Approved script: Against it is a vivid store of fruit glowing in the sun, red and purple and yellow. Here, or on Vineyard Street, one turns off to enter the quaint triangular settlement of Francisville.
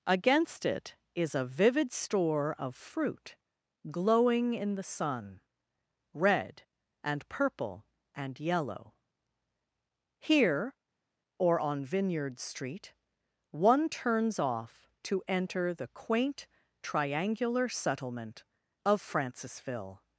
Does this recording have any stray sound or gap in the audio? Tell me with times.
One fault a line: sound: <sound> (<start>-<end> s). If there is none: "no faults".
no faults